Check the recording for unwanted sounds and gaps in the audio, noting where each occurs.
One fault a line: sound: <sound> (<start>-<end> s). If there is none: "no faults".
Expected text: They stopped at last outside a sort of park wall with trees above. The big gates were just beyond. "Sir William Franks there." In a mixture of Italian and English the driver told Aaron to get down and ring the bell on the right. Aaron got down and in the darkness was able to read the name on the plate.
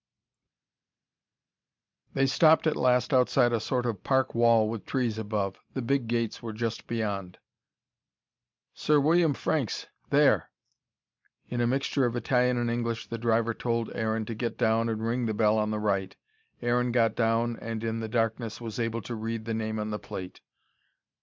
no faults